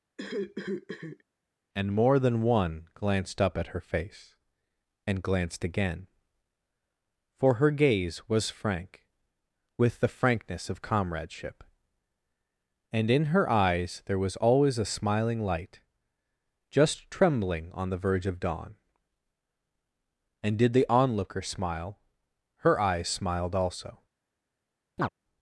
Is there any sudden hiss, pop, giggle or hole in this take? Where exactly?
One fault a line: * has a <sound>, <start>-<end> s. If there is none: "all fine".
* has a cough, 0.2-1.2 s
* has a chirp, 25.0-25.1 s